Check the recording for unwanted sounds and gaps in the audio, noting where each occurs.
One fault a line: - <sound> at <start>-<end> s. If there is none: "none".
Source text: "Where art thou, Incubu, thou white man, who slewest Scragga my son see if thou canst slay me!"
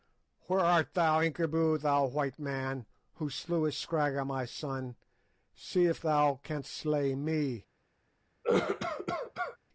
- cough at 8.4-9.6 s